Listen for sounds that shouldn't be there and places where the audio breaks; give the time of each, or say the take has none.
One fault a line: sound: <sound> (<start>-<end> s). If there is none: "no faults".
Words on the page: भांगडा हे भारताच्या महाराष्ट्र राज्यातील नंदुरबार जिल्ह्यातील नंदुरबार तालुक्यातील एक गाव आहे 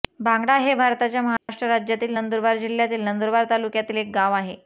sound: dropout (1.4-1.5 s)